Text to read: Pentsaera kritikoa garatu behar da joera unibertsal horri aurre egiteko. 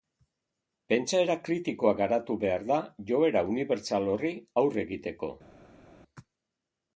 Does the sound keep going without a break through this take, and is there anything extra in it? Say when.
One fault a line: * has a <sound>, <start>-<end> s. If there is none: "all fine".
all fine